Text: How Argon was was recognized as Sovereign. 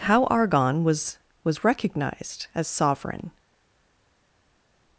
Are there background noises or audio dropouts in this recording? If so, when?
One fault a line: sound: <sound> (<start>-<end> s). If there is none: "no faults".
no faults